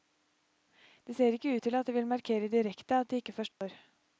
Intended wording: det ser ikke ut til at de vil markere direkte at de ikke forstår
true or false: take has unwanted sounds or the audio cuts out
true